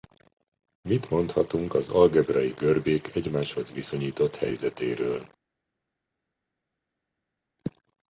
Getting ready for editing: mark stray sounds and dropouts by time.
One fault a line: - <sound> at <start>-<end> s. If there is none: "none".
none